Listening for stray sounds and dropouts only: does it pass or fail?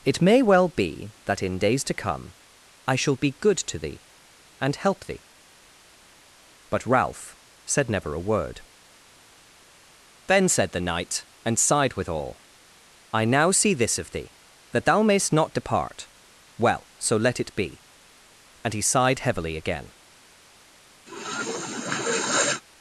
fail